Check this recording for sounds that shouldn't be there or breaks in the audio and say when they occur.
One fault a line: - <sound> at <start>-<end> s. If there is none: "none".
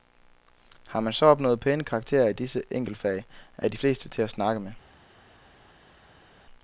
none